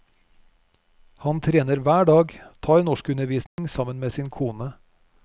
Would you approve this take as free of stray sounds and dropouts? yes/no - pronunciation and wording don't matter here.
no